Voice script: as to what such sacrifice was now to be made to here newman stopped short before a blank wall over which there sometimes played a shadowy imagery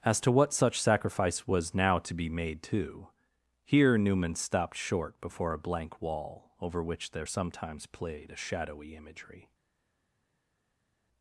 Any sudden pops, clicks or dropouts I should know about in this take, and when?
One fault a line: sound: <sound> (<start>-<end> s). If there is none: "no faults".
no faults